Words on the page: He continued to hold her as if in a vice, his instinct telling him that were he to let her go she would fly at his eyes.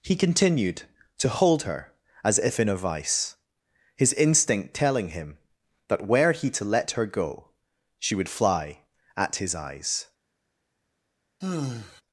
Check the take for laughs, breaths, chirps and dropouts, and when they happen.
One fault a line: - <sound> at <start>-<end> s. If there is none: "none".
- sigh at 11.4-12.0 s